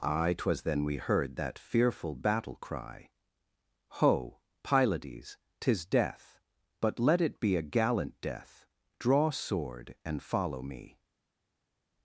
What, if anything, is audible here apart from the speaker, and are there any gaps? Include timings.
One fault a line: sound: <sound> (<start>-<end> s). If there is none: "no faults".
no faults